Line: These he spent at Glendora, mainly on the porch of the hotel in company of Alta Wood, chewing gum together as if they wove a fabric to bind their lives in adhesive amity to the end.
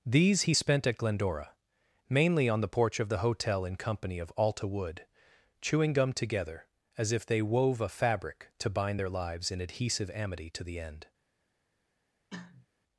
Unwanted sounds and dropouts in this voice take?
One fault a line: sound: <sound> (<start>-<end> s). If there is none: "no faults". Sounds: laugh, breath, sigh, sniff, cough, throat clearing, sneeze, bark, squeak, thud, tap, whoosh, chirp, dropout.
sound: cough (12.3-12.7 s)